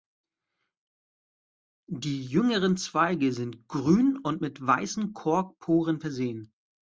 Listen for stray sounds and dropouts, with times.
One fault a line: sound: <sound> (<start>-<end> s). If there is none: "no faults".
no faults